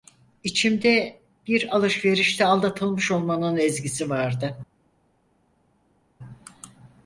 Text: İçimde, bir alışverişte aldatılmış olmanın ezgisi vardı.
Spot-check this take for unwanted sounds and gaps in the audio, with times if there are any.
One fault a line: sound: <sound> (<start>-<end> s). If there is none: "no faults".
no faults